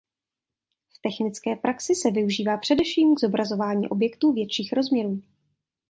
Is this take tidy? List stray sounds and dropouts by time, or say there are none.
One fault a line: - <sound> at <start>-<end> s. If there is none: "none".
none